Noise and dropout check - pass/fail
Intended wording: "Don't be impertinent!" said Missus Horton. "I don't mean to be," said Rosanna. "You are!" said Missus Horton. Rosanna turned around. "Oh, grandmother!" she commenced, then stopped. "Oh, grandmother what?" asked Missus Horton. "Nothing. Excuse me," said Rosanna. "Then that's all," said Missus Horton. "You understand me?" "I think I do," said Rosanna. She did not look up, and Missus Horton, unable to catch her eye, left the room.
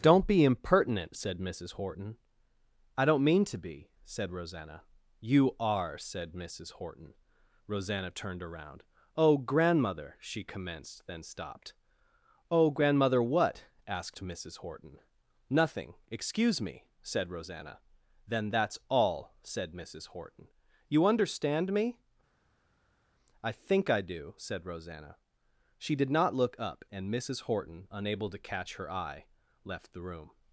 pass